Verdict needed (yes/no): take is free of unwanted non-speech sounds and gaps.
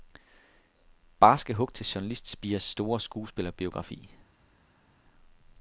yes